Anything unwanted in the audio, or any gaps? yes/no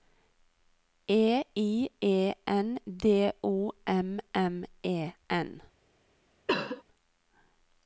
yes